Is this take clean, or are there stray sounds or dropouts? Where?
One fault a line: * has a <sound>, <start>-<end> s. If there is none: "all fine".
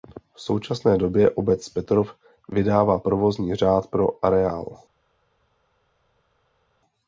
all fine